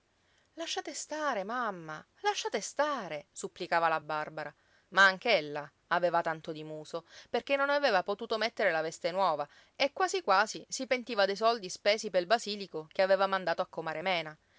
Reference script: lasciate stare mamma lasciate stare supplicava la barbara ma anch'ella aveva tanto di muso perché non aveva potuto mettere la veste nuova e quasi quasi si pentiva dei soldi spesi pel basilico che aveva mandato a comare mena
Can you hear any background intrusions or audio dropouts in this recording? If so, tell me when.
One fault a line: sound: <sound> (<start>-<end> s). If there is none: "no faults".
no faults